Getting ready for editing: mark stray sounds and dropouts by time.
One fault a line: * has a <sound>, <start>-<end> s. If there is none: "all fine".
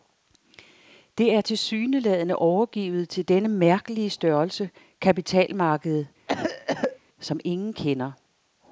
* has a cough, 6.3-7.0 s